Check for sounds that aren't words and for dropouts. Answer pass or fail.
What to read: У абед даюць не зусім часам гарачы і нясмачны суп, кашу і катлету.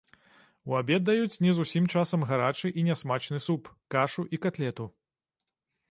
pass